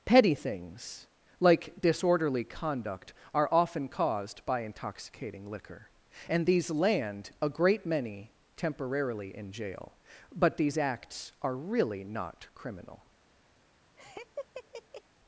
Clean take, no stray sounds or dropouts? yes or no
no